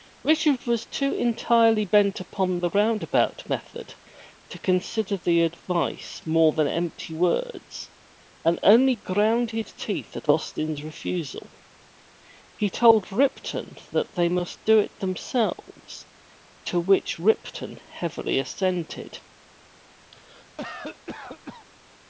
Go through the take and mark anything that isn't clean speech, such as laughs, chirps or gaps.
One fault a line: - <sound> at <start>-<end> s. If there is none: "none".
- cough at 20.1-21.7 s